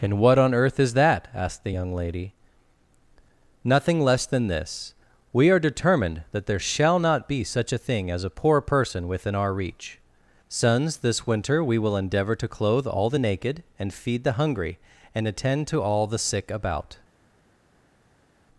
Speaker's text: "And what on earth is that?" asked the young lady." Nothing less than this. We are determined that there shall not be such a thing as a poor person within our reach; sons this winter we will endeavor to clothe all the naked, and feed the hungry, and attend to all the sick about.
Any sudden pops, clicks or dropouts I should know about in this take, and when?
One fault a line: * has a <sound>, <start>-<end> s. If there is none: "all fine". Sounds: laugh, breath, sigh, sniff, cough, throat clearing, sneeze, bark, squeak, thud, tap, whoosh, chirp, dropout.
all fine